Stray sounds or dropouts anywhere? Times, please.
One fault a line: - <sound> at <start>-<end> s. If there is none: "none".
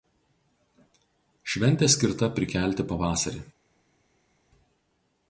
none